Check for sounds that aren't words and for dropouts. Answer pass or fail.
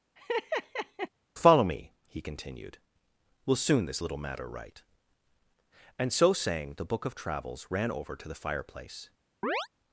fail